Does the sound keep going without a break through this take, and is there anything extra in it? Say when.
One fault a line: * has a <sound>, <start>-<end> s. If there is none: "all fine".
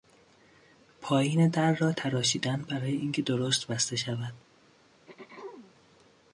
* has a throat clearing, 5.1-5.7 s